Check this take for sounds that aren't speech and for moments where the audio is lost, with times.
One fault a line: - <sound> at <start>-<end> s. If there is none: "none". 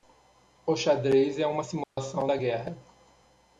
- dropout at 1.8-2.0 s